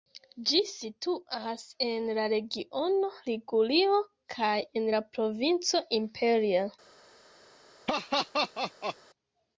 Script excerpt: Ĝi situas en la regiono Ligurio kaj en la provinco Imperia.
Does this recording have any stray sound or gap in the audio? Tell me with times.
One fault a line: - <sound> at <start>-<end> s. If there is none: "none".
- laugh at 7.9-9.0 s